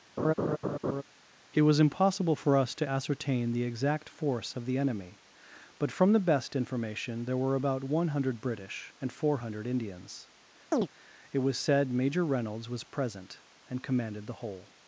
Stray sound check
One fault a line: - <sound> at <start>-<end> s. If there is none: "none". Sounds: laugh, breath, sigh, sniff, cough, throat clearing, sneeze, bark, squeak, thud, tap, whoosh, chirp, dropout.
- laugh at 0.2-1.0 s
- chirp at 10.7-10.9 s